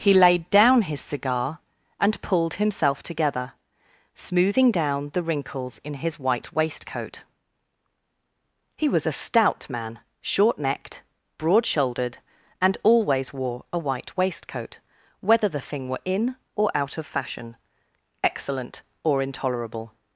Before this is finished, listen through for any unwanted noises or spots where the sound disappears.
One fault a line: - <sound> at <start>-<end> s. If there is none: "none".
none